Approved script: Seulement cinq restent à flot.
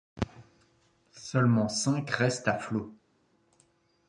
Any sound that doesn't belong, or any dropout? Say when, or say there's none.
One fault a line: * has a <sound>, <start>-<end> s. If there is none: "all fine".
all fine